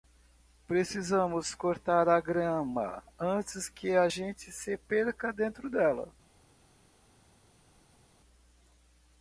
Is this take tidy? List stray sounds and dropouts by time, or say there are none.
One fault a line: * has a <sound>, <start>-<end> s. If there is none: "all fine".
all fine